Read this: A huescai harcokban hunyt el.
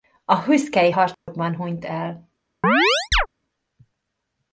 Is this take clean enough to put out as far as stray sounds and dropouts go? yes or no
no